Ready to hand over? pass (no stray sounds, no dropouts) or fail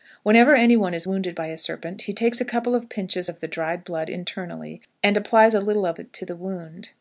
pass